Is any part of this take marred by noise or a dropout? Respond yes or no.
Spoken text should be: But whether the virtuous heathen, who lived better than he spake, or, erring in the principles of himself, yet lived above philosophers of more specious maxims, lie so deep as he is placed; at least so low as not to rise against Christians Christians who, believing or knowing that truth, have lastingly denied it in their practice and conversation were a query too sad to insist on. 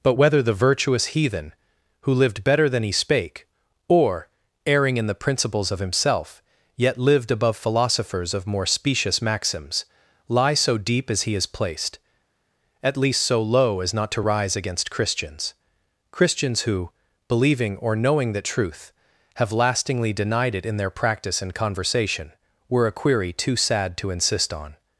no